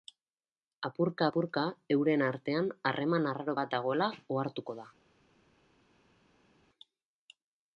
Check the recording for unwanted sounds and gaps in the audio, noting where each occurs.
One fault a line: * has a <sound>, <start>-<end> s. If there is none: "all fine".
all fine